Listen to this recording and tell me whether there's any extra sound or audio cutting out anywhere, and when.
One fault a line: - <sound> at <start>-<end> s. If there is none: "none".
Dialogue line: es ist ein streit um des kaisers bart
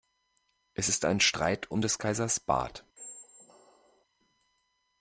- squeak at 3.0-4.1 s